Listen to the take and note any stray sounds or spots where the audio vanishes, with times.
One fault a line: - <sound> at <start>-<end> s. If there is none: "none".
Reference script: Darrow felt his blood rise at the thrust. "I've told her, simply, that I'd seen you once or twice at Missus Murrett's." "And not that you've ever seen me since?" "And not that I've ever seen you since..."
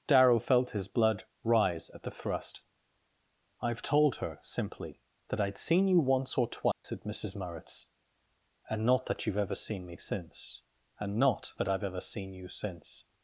- dropout at 6.7-6.8 s